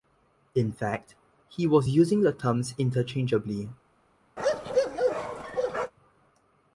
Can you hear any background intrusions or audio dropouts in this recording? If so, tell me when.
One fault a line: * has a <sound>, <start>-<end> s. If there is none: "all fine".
* has a bark, 4.4-5.9 s